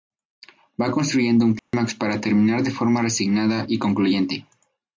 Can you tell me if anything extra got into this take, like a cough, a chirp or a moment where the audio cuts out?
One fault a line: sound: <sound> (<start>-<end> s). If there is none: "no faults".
sound: dropout (1.6-1.7 s)